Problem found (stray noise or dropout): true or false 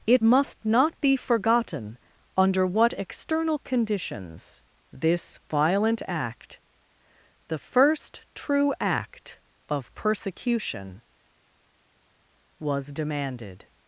false